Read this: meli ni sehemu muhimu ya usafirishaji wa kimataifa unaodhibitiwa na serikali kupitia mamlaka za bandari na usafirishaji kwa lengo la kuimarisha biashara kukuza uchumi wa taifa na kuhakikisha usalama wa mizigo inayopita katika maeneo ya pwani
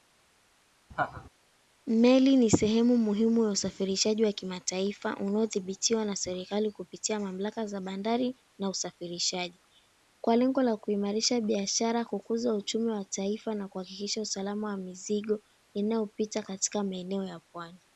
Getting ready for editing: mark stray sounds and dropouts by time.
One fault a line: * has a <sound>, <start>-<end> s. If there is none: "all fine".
* has a laugh, 0.9-1.3 s